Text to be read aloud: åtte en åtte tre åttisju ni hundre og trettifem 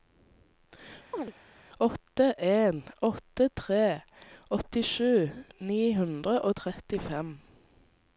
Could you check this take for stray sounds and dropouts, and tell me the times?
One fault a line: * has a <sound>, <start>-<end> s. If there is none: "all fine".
* has a chirp, 1.1-1.3 s